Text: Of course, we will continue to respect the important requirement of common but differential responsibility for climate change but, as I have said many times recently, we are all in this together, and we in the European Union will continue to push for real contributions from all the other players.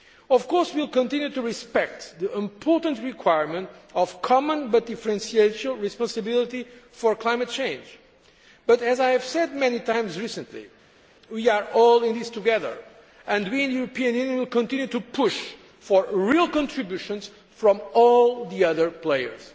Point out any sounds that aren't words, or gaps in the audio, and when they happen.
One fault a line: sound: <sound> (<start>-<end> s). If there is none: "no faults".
no faults